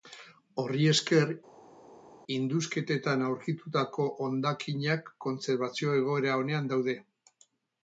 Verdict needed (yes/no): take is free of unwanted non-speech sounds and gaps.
yes